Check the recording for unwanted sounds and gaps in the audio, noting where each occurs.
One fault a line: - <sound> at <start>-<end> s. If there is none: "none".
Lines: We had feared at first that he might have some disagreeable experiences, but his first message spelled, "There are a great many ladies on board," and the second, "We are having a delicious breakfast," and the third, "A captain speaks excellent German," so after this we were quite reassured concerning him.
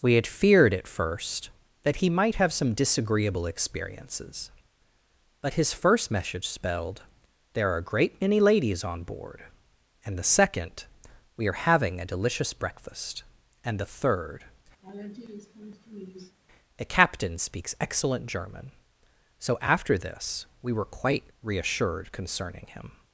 - laugh at 14.8-16.4 s